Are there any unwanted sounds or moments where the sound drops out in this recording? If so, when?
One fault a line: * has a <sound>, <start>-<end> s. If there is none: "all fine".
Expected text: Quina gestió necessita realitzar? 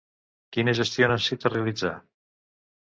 all fine